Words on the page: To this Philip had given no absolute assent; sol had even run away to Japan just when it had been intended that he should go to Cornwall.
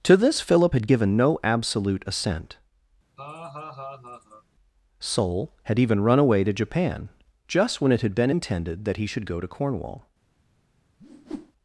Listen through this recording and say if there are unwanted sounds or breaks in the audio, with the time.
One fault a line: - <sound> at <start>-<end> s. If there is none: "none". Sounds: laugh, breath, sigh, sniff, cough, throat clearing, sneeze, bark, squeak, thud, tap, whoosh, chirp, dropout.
- laugh at 3.2-4.4 s
- whoosh at 11.0-11.5 s